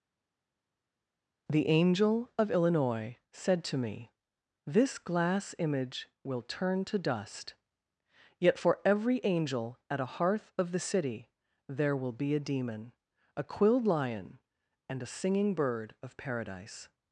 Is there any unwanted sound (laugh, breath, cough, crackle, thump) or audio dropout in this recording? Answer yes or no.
no